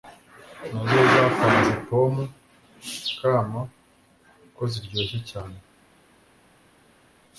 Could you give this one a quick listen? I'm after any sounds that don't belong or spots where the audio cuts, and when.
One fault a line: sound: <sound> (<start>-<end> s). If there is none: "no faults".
no faults